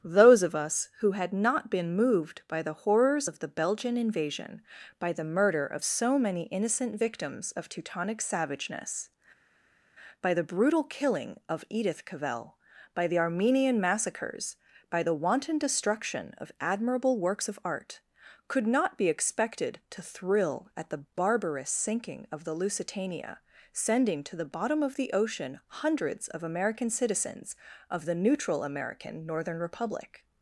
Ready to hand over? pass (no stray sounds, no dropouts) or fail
pass